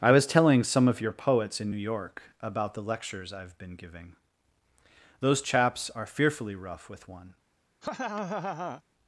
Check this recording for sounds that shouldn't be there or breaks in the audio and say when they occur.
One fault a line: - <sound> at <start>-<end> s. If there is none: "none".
- laugh at 7.8-8.8 s